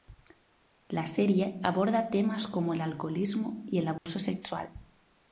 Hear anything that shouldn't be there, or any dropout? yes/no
yes